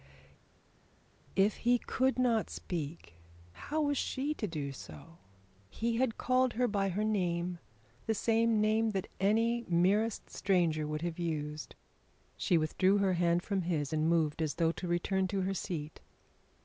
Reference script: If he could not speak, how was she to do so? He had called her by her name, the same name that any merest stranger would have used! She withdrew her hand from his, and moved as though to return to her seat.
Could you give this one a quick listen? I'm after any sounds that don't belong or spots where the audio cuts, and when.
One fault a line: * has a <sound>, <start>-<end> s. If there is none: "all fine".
all fine